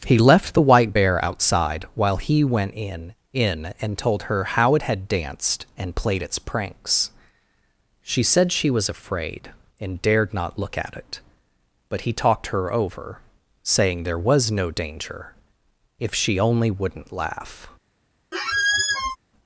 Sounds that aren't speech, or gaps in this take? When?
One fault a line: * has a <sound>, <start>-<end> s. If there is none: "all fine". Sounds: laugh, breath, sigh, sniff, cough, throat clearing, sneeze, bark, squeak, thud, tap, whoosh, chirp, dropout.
* has a squeak, 18.3-19.2 s